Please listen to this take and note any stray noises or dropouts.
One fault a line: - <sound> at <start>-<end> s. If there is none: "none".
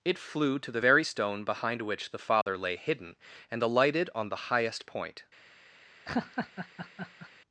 - dropout at 2.4-2.5 s
- laugh at 6.1-7.3 s